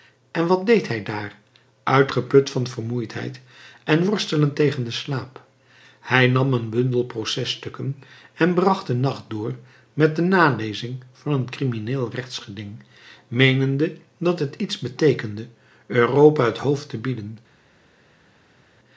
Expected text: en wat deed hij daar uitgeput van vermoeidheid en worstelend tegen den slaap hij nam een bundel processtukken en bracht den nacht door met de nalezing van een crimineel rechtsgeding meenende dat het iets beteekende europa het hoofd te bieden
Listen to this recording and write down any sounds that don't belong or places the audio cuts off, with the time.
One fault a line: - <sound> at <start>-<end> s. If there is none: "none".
none